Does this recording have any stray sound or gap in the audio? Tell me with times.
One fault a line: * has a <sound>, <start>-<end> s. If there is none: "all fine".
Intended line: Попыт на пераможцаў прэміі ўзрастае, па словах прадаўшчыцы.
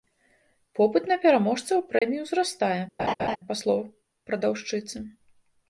* has a dropout, 2.0-2.0 s
* has a laugh, 3.0-3.4 s